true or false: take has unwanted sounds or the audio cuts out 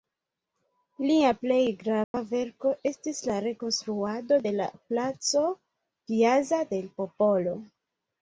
true